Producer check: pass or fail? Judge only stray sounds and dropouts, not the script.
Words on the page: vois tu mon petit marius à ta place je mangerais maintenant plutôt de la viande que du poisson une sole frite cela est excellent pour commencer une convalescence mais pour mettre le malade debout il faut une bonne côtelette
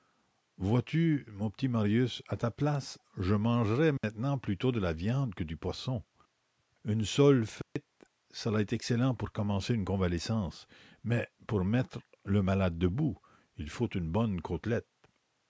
fail